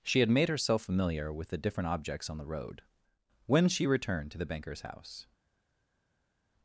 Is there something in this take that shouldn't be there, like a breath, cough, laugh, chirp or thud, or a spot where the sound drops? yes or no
no